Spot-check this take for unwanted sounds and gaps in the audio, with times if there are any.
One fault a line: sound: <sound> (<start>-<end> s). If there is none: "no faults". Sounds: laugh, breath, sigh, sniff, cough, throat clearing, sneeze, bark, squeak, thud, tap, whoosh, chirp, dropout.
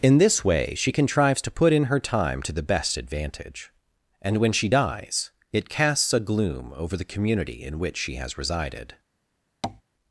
sound: tap (9.6-9.8 s)